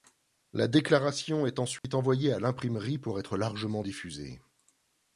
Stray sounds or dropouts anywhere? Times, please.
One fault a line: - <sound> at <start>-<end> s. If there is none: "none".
- dropout at 1.8-1.8 s